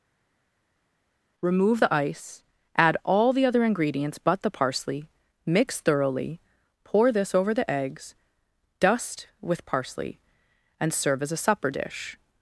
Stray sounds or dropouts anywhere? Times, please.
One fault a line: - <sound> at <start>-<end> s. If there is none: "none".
none